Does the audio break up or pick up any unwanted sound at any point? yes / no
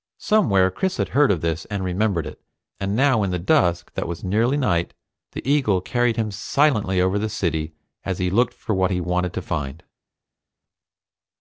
no